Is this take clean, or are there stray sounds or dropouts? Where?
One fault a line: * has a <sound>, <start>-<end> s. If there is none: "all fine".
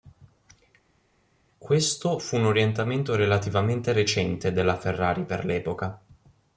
all fine